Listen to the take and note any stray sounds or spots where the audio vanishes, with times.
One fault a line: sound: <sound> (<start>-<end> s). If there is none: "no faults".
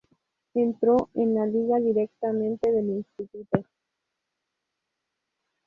no faults